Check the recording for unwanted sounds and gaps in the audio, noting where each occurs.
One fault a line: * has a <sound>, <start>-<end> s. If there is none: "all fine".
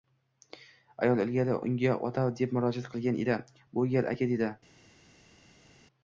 all fine